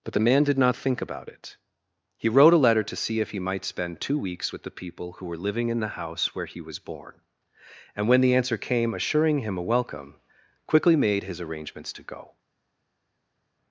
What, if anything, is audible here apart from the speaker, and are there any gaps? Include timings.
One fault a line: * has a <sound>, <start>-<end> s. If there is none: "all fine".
all fine